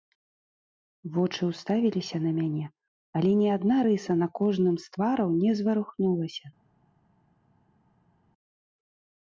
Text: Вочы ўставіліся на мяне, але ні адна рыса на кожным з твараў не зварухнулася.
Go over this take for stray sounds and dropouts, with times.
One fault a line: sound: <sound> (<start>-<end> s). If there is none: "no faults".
no faults